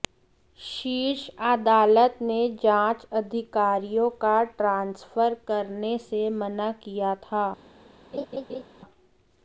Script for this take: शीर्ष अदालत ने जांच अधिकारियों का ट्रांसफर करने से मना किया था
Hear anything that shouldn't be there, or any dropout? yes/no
yes